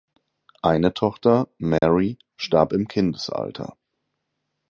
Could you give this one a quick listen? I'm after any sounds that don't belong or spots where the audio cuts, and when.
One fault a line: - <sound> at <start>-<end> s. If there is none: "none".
- dropout at 1.8-1.8 s